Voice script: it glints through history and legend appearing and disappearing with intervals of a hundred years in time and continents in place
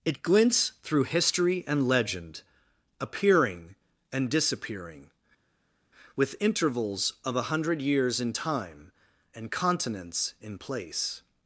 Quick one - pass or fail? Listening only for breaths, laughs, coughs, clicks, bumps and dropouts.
pass